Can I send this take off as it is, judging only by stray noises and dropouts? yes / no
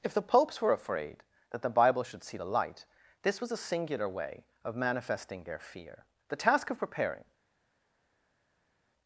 yes